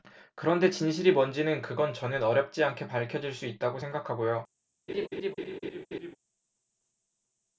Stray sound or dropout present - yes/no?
yes